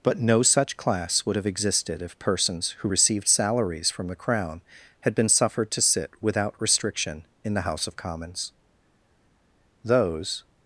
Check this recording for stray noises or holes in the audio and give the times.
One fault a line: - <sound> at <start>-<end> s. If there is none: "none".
none